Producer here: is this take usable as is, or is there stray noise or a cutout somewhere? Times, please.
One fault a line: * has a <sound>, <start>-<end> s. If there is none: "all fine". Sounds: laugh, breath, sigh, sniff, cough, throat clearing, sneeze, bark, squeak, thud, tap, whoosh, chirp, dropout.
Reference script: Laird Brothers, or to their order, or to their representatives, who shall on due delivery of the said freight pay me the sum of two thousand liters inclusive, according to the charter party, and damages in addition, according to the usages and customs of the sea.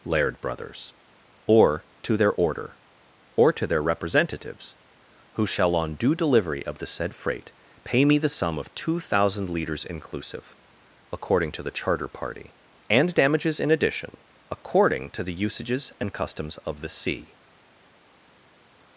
all fine